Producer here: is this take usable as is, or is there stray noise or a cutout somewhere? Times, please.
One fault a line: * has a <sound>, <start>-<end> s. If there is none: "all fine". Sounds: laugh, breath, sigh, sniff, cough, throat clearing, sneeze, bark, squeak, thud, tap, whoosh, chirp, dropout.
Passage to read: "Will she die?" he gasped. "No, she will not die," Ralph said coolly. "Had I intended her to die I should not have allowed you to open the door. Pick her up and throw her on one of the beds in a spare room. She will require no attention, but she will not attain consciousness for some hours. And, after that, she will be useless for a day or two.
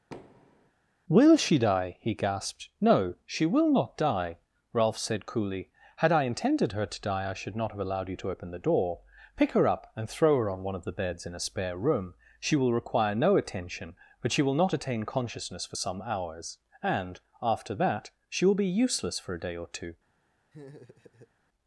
* has a thud, 0.1-0.7 s
* has a laugh, 20.5-21.3 s